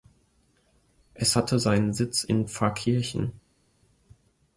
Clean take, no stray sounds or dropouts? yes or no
yes